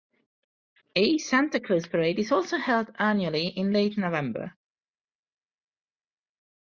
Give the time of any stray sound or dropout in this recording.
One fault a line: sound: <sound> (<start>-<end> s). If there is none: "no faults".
no faults